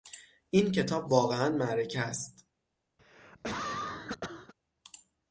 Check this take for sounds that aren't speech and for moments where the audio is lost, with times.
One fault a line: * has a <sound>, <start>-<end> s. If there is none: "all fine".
* has a cough, 3.0-4.5 s